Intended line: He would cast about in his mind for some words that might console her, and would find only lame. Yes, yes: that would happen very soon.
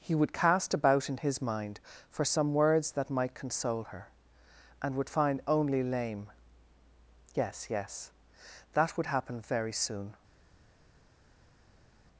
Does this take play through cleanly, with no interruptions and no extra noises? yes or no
yes